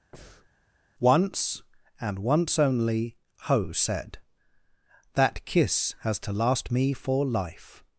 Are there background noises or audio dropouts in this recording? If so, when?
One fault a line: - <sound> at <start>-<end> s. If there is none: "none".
- breath at 0.1-0.5 s